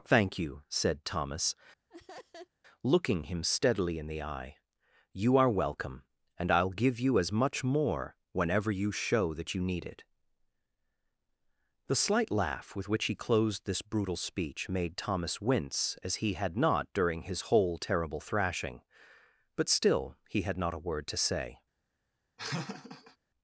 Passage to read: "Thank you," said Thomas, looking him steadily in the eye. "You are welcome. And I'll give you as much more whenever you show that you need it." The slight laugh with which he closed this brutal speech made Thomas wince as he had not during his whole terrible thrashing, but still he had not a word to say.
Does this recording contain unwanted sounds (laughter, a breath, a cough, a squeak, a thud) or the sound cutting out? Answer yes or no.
yes